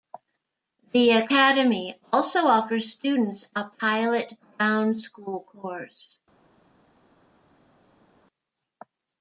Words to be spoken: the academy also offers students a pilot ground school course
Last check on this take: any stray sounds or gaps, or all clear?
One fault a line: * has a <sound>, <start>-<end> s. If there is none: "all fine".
all fine